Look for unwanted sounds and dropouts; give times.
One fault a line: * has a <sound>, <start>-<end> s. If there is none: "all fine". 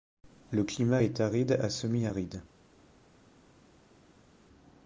all fine